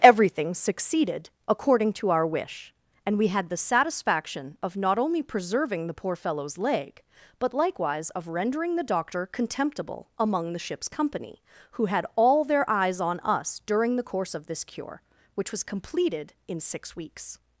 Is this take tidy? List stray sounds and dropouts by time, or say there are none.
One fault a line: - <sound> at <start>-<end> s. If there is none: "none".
none